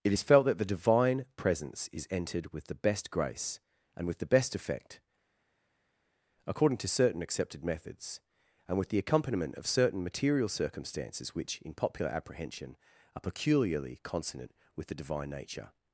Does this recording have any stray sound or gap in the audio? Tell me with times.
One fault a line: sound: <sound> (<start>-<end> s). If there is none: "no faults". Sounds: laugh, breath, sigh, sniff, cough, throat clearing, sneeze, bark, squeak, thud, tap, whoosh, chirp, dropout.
no faults